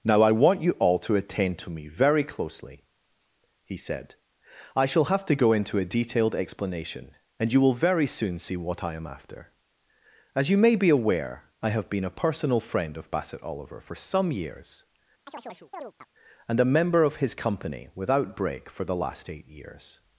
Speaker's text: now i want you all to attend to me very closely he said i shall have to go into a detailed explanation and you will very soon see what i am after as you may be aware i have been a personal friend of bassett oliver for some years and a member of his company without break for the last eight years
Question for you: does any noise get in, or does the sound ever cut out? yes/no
yes